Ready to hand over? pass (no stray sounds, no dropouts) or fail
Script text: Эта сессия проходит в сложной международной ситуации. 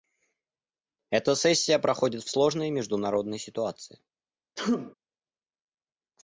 fail